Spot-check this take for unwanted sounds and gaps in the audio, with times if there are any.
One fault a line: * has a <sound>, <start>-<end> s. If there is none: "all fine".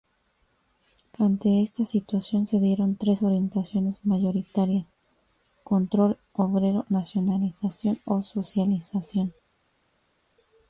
all fine